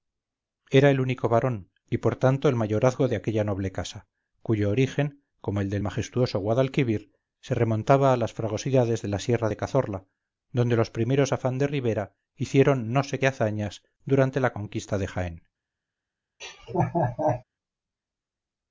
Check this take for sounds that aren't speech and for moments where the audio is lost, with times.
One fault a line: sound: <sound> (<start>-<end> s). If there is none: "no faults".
sound: laugh (16.4-17.4 s)